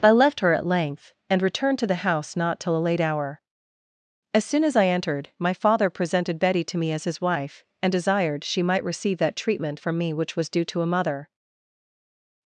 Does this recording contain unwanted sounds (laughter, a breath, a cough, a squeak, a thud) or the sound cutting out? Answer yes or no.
no